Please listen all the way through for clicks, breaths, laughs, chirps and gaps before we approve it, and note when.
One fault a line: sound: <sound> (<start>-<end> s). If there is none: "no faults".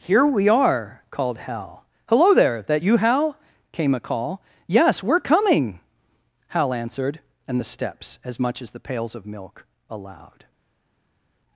no faults